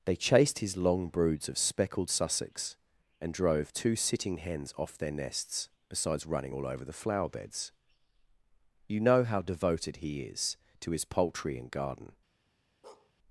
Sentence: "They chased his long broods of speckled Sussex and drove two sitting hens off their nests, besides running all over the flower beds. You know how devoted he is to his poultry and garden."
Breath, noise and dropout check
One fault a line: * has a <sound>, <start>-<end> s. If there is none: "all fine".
* has a bark, 12.8-13.1 s